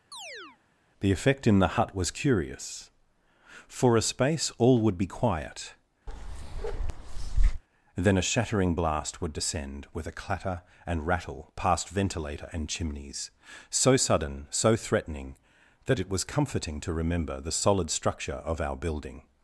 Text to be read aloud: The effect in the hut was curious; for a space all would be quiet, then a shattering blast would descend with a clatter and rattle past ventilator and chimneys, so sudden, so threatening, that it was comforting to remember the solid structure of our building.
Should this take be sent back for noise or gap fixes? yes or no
yes